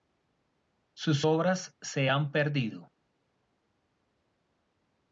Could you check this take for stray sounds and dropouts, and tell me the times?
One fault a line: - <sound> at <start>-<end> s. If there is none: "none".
none